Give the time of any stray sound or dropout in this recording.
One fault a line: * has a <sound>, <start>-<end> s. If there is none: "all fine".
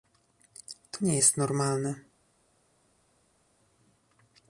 all fine